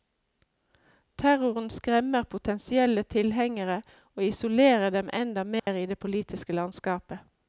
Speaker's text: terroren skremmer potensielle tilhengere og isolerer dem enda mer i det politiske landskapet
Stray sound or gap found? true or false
true